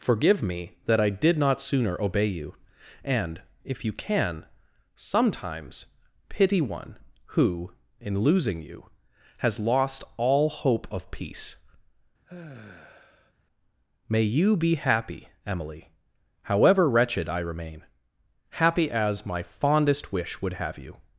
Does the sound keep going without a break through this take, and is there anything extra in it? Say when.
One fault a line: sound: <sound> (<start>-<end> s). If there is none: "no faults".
sound: sigh (12.3-13.3 s)